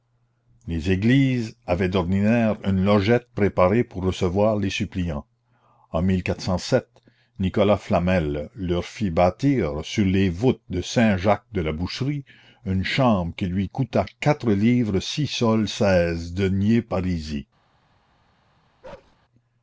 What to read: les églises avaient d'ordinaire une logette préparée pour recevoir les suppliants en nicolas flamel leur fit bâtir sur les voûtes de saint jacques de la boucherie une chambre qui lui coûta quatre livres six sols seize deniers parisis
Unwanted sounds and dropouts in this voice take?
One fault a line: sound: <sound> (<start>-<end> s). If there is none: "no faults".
sound: bark (18.8-19.2 s)